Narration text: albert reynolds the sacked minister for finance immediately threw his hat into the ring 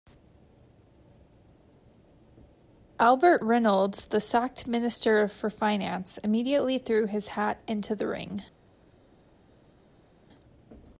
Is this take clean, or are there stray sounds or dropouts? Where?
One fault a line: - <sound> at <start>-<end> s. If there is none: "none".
none